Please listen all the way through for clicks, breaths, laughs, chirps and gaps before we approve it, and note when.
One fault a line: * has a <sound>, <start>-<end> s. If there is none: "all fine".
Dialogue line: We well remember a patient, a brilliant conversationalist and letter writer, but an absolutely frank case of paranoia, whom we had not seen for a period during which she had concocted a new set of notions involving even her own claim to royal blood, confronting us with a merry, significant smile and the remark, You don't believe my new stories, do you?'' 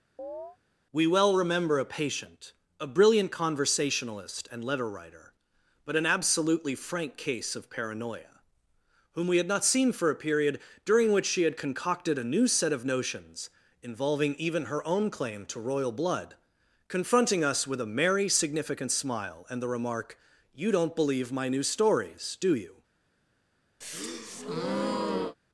* has a chirp, 0.2-0.6 s
* has a breath, 23.8-25.4 s